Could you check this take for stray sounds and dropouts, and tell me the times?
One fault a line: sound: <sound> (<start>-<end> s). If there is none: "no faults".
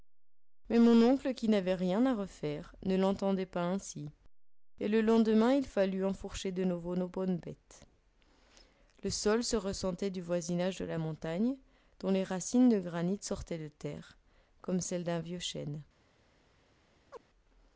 sound: chirp (17.1-17.2 s)